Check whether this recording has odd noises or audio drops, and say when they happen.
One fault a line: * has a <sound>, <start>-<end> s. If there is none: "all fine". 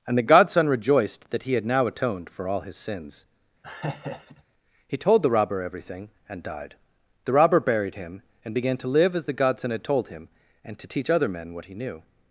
* has a laugh, 3.6-4.4 s